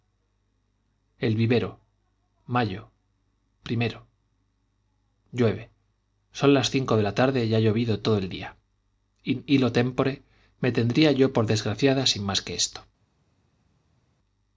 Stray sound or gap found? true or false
false